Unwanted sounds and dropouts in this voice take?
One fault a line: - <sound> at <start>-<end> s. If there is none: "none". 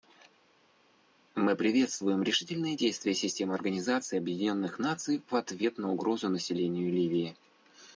none